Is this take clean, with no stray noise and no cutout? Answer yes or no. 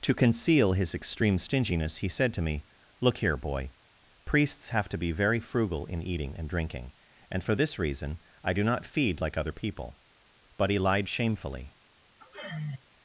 no